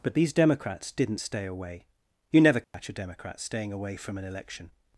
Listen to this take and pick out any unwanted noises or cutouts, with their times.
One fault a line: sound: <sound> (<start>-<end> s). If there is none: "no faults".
sound: dropout (2.6-2.7 s)